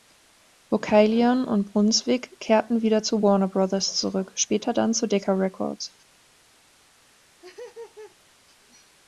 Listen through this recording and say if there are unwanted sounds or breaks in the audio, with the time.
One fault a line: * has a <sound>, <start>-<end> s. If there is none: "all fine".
* has a laugh, 7.1-8.4 s